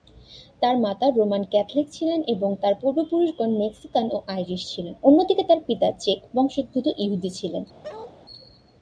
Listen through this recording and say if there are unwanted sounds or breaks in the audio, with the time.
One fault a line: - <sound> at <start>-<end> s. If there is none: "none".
- bark at 7.8-8.2 s